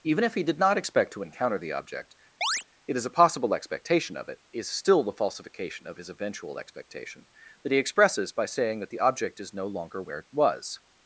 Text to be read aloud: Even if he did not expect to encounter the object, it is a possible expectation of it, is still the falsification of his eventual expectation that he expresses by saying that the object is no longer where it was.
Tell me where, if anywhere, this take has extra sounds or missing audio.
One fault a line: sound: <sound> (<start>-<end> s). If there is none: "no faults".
sound: chirp (2.4-2.6 s)